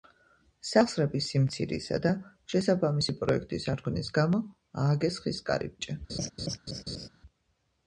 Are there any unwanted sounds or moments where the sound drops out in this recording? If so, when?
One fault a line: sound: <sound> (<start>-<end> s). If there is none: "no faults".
sound: laugh (6.1-7.1 s)